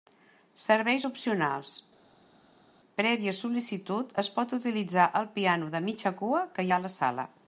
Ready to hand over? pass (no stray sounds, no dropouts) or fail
pass